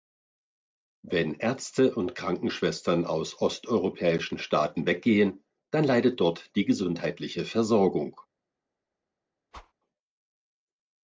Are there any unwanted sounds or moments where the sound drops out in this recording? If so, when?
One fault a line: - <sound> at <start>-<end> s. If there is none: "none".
- whoosh at 9.5-9.7 s